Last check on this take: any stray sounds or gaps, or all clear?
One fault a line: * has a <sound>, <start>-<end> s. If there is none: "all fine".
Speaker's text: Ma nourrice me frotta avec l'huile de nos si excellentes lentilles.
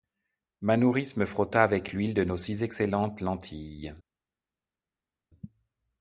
all fine